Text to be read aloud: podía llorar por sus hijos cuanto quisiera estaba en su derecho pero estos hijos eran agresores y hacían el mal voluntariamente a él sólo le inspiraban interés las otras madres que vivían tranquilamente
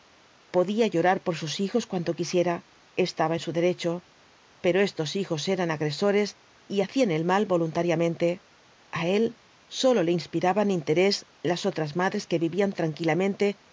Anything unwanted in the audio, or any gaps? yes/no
no